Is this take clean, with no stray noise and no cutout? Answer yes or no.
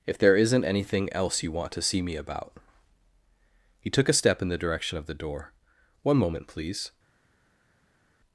yes